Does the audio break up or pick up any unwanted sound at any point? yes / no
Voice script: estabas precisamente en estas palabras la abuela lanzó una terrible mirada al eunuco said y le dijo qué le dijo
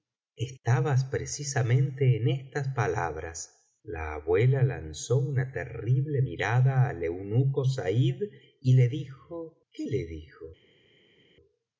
no